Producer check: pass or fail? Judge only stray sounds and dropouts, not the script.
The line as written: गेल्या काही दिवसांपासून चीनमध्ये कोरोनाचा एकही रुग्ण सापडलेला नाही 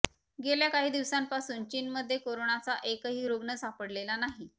pass